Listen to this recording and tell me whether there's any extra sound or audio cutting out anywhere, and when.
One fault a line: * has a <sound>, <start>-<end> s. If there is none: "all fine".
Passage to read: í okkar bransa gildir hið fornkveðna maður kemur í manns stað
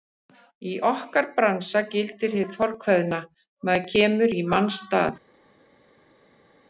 all fine